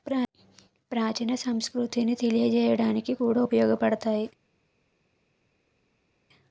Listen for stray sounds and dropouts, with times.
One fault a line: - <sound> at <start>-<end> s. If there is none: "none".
none